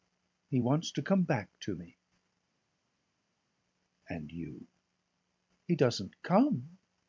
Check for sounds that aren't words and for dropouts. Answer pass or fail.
pass